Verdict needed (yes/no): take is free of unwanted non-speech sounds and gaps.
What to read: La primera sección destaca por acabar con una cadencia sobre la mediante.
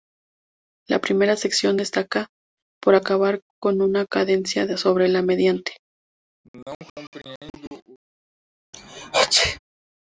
no